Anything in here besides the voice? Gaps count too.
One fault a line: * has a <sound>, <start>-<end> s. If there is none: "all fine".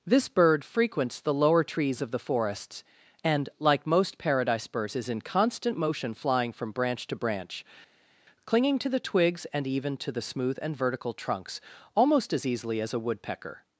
all fine